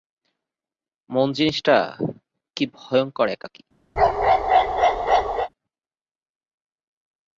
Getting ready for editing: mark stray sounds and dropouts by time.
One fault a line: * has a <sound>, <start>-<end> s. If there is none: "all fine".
* has a bark, 4.0-5.5 s